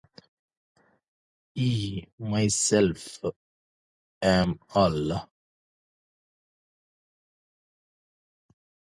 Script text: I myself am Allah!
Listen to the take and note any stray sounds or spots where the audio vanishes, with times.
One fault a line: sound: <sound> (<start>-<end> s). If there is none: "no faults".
no faults